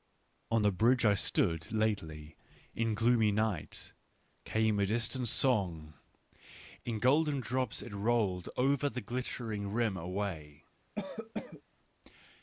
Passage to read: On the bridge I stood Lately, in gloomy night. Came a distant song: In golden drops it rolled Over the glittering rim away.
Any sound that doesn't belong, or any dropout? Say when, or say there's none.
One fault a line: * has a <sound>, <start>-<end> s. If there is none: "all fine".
* has a cough, 11.0-11.6 s